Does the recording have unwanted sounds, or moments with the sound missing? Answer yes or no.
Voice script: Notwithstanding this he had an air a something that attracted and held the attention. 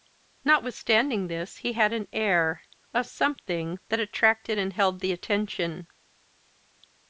no